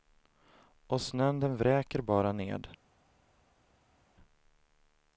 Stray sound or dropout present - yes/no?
no